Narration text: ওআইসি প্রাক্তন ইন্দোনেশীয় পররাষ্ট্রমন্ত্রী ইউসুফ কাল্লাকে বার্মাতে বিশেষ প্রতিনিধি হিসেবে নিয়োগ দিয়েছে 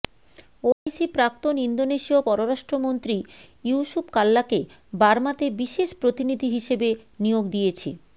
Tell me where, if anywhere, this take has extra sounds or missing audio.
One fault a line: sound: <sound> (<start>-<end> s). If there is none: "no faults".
sound: dropout (0.7-0.9 s)